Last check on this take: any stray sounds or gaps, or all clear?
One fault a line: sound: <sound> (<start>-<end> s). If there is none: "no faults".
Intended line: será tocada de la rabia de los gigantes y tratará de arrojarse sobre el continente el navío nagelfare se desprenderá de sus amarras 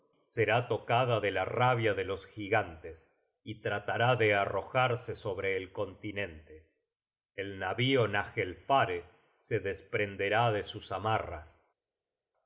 no faults